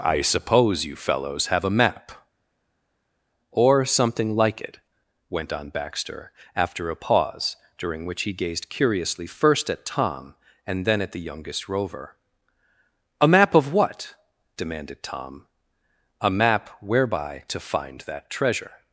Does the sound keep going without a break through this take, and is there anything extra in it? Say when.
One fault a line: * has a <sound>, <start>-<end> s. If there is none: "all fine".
all fine